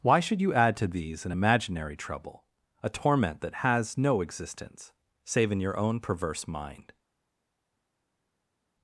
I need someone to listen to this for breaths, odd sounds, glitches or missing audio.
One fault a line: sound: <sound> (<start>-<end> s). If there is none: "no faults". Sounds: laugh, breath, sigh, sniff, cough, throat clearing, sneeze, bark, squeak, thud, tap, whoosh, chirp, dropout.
no faults